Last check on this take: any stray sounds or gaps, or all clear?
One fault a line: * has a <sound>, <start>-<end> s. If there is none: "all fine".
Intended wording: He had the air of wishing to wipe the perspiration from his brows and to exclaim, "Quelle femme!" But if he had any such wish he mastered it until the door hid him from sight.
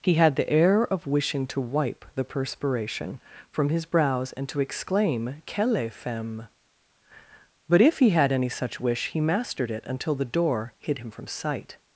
all fine